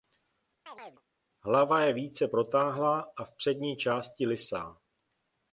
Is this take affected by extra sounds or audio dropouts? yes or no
yes